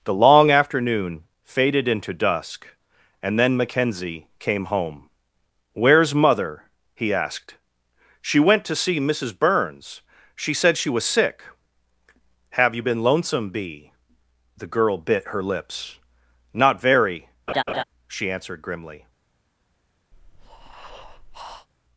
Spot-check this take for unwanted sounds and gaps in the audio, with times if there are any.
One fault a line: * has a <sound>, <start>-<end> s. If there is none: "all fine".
* has a laugh, 17.5-17.8 s
* has a breath, 20.1-21.7 s